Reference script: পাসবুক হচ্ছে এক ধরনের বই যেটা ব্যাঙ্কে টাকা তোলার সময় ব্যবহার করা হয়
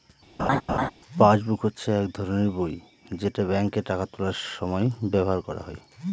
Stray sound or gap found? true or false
true